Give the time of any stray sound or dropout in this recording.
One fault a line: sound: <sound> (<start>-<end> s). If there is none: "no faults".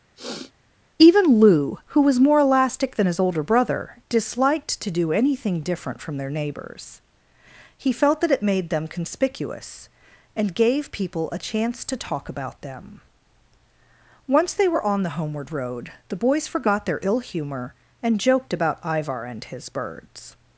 sound: sniff (0.2-0.5 s)